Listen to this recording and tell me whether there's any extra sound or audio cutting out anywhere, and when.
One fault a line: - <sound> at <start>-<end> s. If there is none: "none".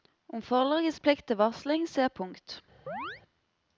- chirp at 2.9-3.2 s